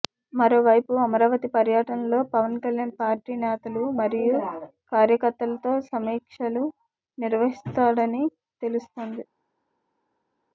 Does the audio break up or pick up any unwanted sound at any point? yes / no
no